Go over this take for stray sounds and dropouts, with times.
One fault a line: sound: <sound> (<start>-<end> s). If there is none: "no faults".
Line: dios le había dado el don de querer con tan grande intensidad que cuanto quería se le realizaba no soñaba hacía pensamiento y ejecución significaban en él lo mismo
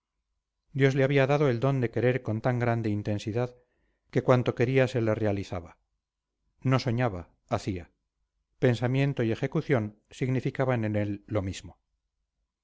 no faults